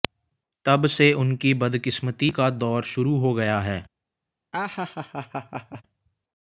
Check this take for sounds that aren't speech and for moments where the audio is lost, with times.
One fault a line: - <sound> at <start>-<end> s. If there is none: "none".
- laugh at 4.5-5.8 s